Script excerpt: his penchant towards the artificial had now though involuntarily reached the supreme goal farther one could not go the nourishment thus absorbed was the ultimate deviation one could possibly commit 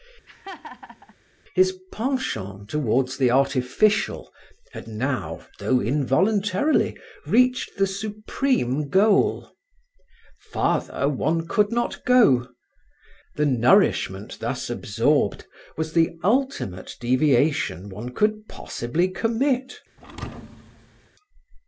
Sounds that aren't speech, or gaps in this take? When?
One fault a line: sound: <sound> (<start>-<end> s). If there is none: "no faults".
sound: laugh (0.3-1.2 s)
sound: thud (20.0-21.1 s)